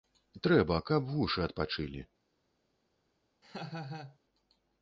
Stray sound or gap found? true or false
true